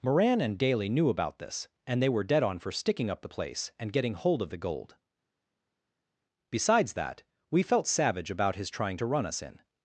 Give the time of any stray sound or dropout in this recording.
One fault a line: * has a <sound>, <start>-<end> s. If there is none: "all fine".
all fine